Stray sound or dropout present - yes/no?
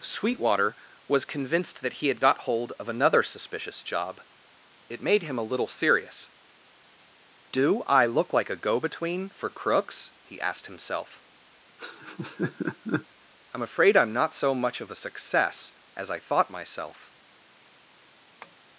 yes